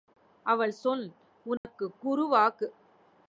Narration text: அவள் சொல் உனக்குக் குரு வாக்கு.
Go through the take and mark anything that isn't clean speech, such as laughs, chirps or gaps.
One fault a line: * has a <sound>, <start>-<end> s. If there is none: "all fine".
* has a dropout, 1.6-1.6 s